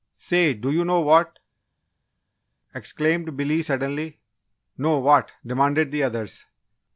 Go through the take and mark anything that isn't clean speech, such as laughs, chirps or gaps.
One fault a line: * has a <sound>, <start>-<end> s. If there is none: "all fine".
all fine